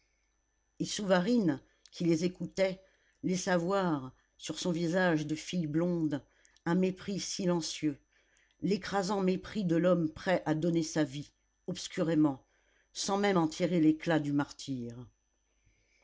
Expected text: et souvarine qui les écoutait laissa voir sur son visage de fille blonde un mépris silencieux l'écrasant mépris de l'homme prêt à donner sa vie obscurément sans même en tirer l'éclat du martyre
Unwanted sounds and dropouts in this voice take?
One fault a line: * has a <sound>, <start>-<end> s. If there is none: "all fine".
all fine